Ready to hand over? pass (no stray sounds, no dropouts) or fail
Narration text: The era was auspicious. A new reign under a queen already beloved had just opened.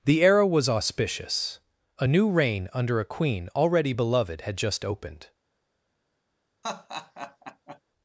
fail